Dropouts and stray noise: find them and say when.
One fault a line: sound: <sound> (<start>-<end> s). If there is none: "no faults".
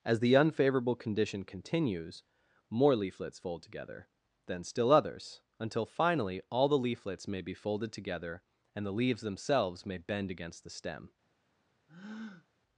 sound: breath (11.9-12.5 s)